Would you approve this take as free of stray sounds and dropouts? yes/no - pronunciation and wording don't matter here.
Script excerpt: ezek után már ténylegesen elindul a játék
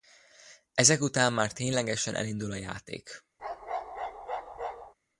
no